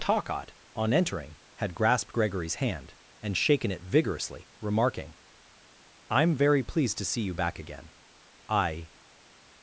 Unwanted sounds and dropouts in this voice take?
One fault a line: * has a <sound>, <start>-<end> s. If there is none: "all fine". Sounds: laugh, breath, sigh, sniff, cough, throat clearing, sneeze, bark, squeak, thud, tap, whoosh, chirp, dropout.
all fine